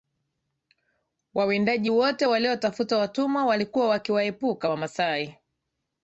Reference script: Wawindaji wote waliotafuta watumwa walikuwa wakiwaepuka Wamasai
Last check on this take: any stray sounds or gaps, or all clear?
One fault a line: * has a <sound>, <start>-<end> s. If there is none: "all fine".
all fine